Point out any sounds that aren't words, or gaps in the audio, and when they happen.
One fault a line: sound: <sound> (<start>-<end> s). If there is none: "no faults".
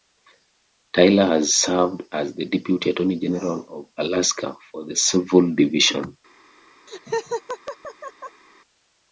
sound: laugh (6.9-8.4 s)